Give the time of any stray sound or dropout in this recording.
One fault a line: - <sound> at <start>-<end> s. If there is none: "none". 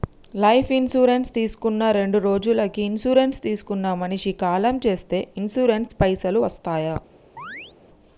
- chirp at 7.4-7.7 s